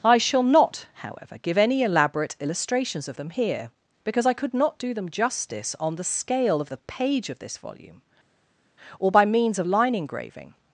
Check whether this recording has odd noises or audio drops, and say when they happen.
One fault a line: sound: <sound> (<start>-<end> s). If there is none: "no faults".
no faults